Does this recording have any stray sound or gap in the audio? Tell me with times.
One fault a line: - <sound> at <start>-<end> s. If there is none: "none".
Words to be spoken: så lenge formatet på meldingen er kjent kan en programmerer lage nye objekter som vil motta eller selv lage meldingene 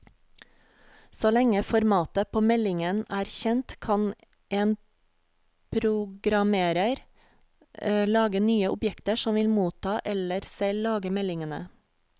none